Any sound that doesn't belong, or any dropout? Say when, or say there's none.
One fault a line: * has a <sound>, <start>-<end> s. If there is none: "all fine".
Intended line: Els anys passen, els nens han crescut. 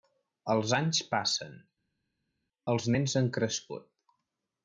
all fine